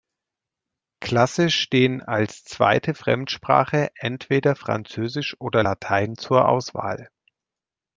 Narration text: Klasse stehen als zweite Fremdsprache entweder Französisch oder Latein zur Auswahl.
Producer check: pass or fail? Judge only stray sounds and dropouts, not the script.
pass